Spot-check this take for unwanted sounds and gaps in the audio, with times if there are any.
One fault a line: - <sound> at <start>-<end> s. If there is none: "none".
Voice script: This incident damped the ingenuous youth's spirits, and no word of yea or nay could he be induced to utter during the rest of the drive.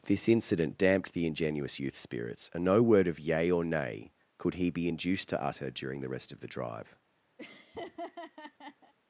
- laugh at 7.4-8.9 s